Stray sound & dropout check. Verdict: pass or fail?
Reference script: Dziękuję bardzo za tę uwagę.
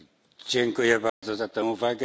fail